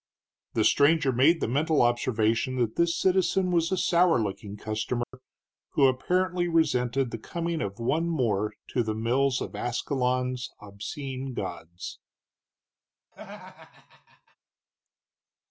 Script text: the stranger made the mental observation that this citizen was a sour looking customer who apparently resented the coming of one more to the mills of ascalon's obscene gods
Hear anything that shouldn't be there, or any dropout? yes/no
yes